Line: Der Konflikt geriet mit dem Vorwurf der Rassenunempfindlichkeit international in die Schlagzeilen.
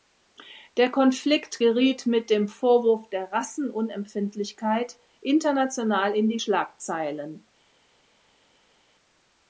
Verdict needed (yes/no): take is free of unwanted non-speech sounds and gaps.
yes